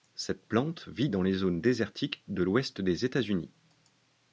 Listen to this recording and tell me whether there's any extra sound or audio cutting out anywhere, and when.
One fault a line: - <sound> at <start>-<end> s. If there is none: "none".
none